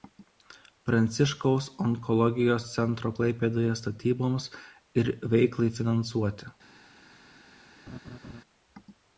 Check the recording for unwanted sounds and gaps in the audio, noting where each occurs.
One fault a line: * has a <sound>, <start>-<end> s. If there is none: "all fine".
* has a laugh, 7.9-8.4 s